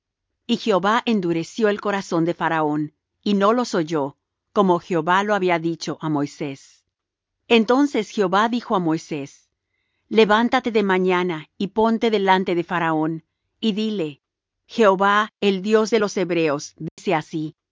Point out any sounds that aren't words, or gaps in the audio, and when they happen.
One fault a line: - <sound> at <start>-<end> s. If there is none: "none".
- dropout at 16.9-17.0 s